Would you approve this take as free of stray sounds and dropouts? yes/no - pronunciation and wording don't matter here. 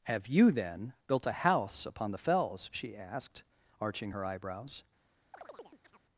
no